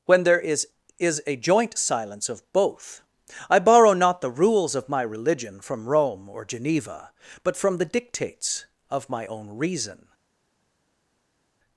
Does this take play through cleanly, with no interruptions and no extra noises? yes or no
yes